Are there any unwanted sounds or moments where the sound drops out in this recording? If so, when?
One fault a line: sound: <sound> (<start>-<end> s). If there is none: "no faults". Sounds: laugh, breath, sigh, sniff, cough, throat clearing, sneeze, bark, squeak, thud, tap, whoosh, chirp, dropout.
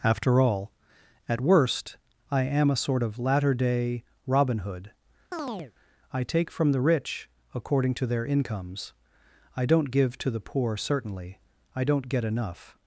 sound: chirp (5.3-5.7 s)